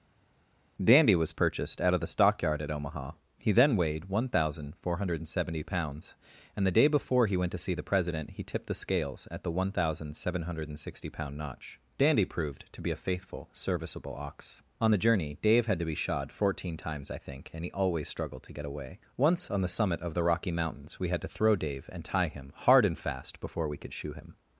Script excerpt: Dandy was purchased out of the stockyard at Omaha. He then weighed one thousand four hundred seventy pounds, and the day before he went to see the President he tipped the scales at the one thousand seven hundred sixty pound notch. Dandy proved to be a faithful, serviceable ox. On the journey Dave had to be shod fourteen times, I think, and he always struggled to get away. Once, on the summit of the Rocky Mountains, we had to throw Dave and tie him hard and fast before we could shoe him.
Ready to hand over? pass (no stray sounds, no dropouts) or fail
pass